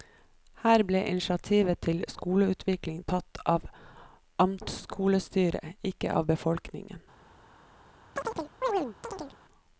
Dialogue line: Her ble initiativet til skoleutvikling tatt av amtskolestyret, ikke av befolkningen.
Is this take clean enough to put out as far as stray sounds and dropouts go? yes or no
no